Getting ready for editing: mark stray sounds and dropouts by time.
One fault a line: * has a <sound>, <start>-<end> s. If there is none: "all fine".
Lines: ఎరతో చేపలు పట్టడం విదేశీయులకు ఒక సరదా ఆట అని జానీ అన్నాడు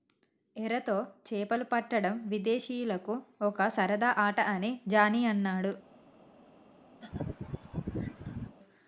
* has a laugh, 7.0-8.6 s